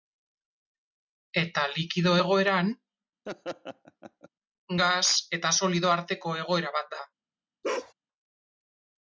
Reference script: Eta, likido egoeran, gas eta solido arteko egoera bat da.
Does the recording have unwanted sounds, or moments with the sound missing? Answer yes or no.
yes